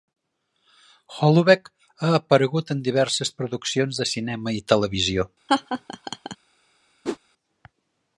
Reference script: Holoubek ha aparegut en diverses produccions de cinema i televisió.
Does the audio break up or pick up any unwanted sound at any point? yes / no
yes